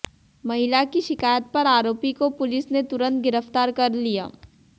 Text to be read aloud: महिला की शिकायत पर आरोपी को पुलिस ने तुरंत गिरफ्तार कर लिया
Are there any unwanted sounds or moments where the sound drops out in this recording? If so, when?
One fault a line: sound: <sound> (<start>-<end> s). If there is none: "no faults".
no faults